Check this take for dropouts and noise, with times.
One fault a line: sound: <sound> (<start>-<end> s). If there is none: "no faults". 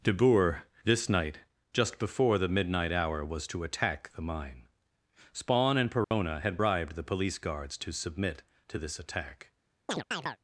sound: dropout (6.0-6.1 s)
sound: chirp (9.9-10.4 s)